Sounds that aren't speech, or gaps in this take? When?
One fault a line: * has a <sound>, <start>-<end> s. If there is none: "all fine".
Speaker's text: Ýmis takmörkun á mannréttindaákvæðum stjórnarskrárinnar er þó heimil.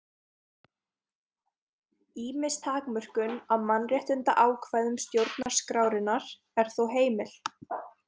* has a dropout, 5.4-5.5 s